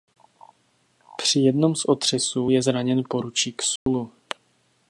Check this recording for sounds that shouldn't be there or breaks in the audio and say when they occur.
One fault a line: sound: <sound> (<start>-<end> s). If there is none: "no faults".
sound: dropout (3.8-3.9 s)